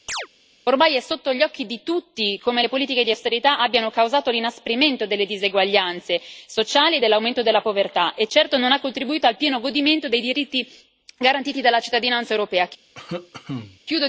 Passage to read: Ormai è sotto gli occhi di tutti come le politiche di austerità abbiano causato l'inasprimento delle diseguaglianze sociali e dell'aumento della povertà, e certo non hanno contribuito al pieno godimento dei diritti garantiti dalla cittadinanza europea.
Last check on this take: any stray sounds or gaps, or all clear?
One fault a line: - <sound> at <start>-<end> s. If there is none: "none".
- chirp at 0.1-0.3 s
- cough at 13.0-13.8 s